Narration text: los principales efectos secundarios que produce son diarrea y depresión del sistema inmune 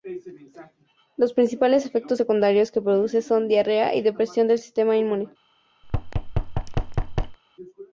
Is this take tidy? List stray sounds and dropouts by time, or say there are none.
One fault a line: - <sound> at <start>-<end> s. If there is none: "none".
- thud at 5.8-7.4 s